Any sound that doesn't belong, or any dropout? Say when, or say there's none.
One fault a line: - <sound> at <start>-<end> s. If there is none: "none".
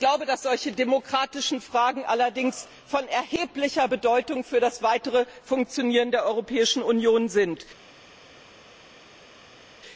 none